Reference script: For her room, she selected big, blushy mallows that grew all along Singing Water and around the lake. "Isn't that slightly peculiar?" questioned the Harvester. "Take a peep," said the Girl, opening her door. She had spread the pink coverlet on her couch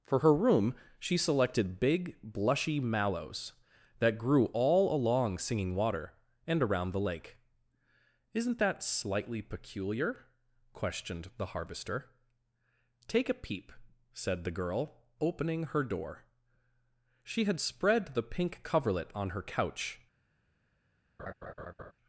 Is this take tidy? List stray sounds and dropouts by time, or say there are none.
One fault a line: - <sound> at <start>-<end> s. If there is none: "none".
- laugh at 21.2-21.9 s